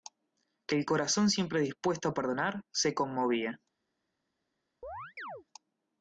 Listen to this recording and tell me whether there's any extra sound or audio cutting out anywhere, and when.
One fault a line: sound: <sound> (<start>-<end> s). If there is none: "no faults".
sound: chirp (4.8-5.4 s)